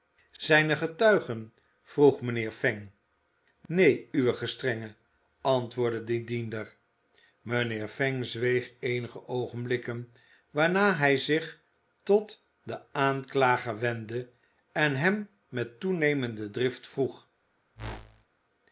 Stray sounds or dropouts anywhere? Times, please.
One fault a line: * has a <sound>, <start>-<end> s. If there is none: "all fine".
* has a whoosh, 17.7-18.2 s